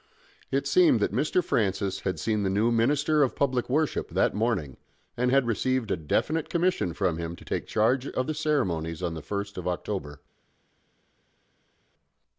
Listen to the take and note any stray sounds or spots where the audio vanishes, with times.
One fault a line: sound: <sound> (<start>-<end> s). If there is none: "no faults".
no faults